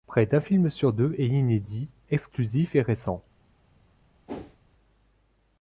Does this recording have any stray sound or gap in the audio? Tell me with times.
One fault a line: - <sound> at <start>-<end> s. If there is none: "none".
- whoosh at 4.3-4.6 s